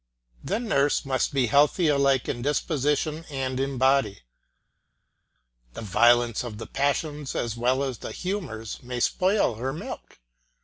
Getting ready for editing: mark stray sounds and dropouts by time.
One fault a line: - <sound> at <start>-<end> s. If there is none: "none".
none